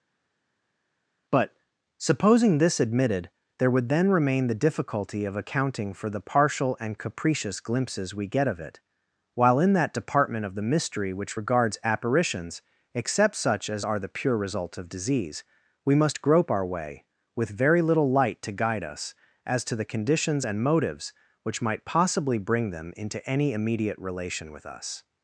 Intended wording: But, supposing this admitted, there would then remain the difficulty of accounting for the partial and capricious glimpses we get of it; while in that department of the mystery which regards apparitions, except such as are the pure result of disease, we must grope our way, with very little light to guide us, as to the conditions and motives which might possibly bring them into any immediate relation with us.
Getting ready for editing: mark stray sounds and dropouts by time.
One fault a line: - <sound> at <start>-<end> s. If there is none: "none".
none